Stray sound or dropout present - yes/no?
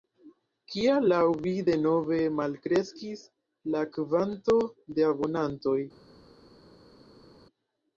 no